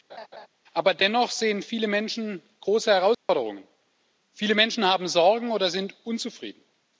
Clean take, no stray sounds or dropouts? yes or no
no